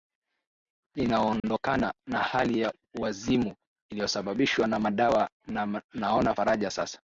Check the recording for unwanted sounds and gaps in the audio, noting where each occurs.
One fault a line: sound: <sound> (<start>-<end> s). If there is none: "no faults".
sound: dropout (1.4-1.4 s)